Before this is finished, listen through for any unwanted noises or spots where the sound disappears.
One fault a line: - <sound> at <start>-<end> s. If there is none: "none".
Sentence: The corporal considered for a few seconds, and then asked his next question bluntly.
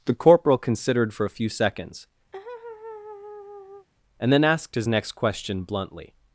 - laugh at 2.3-3.9 s